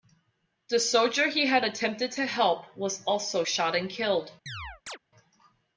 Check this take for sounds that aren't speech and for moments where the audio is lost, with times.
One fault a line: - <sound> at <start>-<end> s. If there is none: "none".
- chirp at 4.5-5.0 s